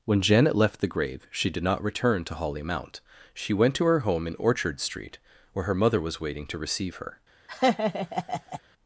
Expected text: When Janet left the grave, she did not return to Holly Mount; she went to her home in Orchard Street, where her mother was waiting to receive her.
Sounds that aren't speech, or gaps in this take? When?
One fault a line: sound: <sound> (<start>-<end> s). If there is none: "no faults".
sound: laugh (7.5-8.6 s)